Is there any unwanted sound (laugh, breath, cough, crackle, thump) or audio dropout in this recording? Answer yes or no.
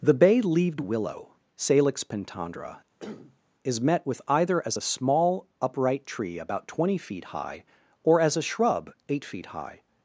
yes